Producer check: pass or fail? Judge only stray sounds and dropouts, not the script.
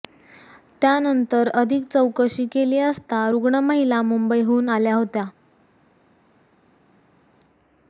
pass